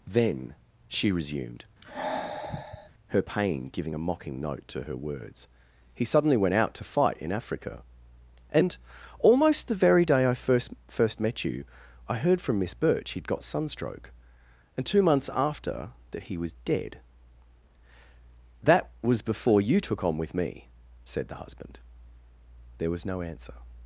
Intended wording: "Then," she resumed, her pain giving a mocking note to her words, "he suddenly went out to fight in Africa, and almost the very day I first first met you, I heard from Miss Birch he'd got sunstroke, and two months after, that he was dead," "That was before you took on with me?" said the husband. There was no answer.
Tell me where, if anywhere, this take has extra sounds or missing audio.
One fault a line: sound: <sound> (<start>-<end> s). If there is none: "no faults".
sound: sigh (1.8-2.9 s)